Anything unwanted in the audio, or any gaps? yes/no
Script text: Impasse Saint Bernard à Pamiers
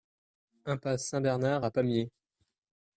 no